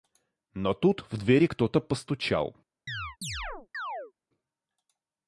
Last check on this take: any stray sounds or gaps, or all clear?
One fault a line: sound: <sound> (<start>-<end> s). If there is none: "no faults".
sound: chirp (2.9-4.1 s)